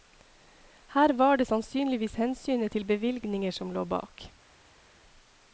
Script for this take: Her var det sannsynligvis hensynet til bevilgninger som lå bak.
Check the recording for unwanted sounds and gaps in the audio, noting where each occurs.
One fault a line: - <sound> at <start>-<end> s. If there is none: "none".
none